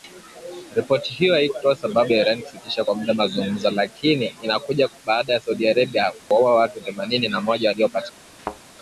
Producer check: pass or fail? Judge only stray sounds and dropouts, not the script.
fail